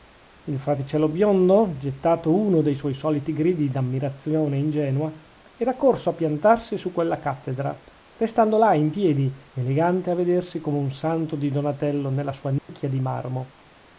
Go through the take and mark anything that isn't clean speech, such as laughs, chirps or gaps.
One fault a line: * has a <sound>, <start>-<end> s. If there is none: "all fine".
* has a dropout, 12.6-12.7 s